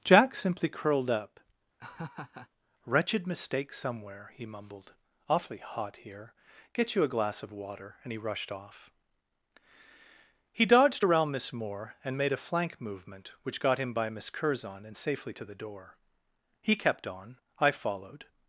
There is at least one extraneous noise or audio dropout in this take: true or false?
true